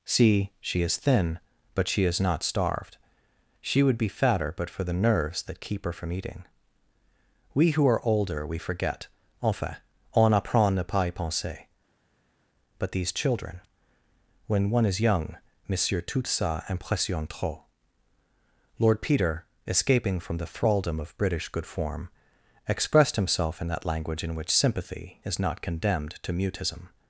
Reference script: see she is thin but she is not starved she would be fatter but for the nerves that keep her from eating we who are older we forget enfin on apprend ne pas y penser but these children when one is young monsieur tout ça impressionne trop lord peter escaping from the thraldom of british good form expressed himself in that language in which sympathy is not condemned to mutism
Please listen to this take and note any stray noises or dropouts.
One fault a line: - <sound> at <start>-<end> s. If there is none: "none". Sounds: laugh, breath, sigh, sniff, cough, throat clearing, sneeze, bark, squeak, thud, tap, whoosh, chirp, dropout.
none